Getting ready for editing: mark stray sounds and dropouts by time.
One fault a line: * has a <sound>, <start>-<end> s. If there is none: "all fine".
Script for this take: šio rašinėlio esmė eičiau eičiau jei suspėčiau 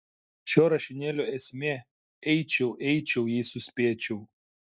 all fine